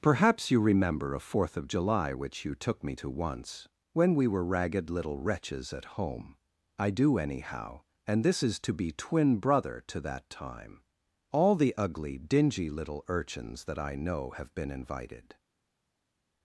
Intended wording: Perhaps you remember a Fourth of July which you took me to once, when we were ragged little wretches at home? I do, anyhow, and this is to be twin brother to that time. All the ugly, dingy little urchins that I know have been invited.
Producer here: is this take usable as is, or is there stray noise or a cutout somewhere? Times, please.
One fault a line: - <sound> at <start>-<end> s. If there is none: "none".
none